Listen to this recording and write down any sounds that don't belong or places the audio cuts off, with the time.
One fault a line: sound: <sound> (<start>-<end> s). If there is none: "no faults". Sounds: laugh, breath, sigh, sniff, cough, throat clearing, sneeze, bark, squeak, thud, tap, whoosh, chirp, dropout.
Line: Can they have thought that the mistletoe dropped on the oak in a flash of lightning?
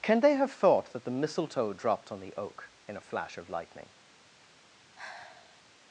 sound: sigh (5.0-5.6 s)